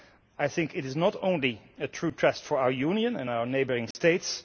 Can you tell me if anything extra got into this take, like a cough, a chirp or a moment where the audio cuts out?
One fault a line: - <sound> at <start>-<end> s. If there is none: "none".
- dropout at 3.9-3.9 s